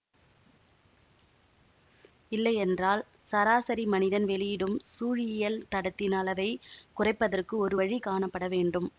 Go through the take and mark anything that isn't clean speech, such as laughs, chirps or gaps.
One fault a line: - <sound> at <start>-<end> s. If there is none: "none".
none